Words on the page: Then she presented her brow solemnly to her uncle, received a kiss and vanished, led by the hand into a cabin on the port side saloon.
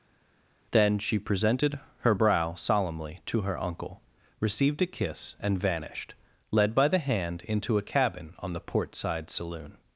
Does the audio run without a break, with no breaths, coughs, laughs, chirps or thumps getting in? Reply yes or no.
yes